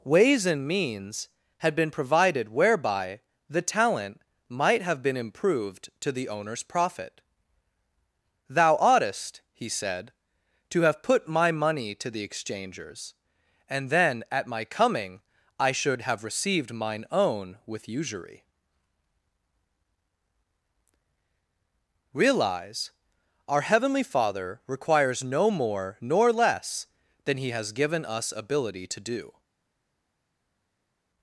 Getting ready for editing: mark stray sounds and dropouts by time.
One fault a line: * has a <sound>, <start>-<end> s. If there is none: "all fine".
all fine